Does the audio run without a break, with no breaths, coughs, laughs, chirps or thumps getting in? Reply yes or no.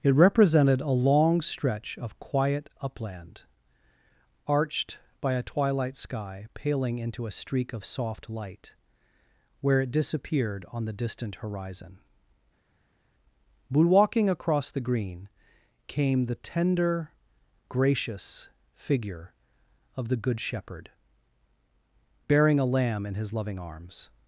yes